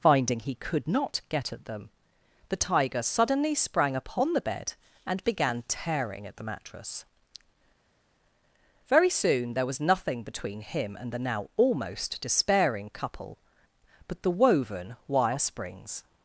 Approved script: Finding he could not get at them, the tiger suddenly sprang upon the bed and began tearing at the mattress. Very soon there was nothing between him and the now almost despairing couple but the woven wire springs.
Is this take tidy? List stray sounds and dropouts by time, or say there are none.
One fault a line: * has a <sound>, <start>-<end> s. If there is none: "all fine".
all fine